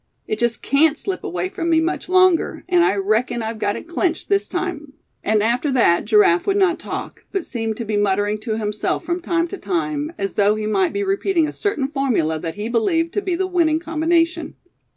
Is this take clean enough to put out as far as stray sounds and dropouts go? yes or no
yes